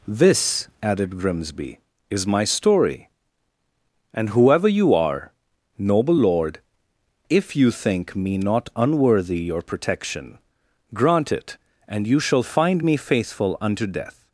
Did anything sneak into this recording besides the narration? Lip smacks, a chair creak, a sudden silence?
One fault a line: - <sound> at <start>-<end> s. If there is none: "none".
none